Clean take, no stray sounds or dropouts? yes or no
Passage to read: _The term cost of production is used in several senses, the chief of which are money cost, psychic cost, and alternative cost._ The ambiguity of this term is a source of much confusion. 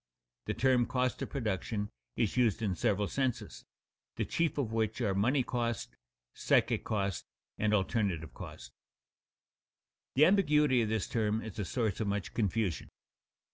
yes